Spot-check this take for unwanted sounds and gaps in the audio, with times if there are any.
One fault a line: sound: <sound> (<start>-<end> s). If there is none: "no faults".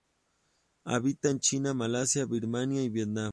no faults